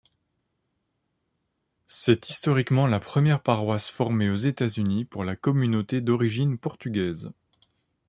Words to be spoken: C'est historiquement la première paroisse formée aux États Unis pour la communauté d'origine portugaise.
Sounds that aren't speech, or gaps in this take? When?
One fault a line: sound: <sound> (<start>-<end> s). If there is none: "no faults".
no faults